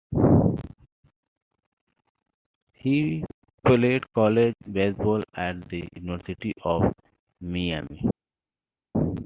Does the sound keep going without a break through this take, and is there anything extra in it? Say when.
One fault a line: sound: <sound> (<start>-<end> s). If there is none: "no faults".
no faults